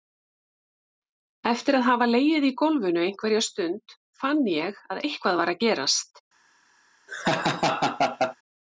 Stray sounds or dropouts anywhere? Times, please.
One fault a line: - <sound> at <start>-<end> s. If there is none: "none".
- laugh at 7.1-8.4 s